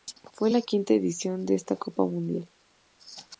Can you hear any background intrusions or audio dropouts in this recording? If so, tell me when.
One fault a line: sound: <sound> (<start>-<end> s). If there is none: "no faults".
no faults